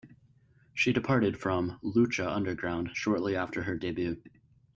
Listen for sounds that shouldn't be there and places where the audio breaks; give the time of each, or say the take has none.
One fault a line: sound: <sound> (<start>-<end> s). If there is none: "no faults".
no faults